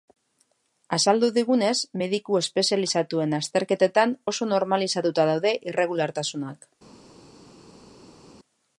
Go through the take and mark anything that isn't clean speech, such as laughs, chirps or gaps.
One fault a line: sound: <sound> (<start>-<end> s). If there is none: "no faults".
no faults